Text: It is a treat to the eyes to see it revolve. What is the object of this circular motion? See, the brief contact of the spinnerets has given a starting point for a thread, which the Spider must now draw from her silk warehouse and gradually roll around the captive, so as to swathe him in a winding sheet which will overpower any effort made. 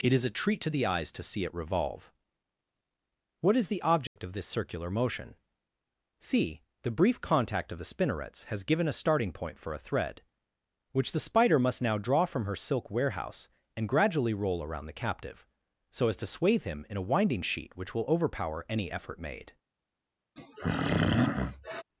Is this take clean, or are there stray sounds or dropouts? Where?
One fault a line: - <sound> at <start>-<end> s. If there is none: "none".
- dropout at 4.1-4.2 s
- throat clearing at 20.4-21.8 s